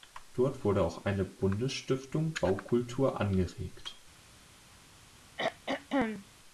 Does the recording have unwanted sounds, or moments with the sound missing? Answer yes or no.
yes